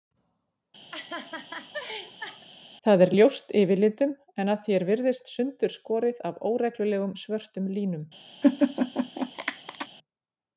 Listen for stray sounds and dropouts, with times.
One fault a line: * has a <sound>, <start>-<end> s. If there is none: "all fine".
* has a laugh, 0.9-2.5 s
* has a laugh, 8.4-9.9 s